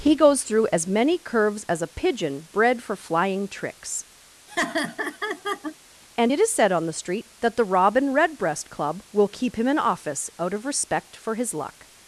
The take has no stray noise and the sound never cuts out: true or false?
false